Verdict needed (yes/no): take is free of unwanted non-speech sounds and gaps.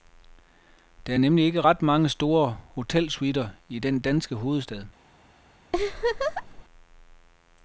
no